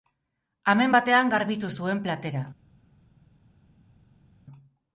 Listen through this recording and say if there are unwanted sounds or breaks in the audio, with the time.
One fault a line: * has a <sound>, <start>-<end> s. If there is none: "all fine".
all fine